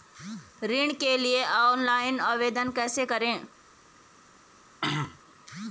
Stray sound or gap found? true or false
true